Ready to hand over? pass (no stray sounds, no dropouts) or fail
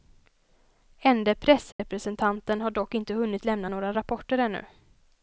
fail